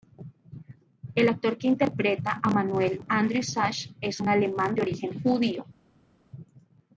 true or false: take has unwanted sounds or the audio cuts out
false